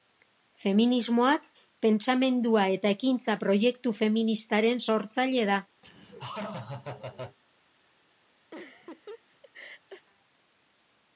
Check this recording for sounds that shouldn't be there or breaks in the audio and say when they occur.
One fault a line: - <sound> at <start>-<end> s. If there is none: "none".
- laugh at 5.8-7.4 s
- laugh at 8.5-10.1 s